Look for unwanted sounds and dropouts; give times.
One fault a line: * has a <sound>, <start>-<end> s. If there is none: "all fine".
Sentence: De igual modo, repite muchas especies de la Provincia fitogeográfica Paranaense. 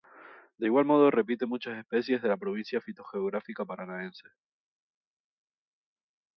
all fine